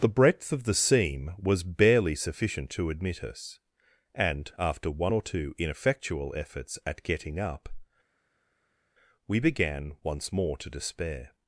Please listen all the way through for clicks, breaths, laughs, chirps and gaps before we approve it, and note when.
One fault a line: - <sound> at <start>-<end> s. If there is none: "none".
none